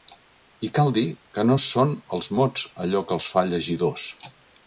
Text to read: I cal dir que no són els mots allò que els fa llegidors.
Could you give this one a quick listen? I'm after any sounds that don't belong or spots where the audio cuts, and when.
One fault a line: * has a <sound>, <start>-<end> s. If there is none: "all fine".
all fine